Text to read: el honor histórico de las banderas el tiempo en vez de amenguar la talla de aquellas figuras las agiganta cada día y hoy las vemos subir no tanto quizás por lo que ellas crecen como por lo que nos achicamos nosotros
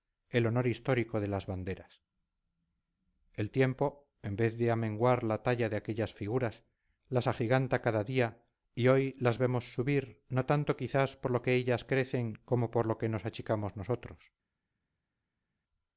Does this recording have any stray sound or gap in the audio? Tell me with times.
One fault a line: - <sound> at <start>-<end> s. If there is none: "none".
none